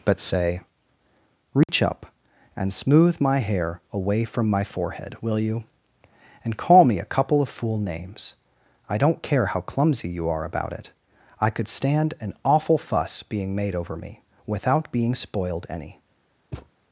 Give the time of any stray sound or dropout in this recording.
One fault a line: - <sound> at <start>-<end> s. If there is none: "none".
- dropout at 1.6-1.7 s
- thud at 16.5-16.7 s